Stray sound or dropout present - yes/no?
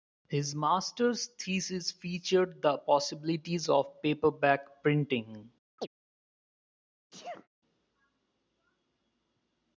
yes